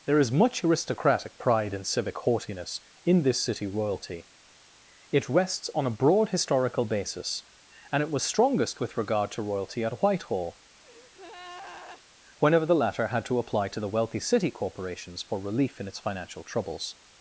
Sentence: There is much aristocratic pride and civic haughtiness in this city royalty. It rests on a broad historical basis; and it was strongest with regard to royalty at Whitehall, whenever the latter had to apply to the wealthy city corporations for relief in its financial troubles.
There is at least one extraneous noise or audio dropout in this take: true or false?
true